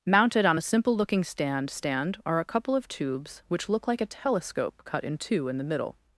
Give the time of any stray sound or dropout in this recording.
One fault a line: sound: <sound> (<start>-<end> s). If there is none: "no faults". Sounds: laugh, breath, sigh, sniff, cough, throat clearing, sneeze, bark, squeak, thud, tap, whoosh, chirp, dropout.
no faults